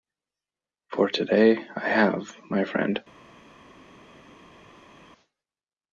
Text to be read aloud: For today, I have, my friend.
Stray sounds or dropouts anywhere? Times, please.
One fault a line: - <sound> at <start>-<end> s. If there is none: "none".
none